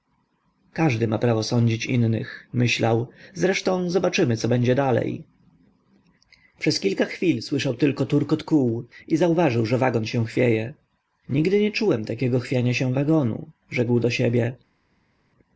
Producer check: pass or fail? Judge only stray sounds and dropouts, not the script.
pass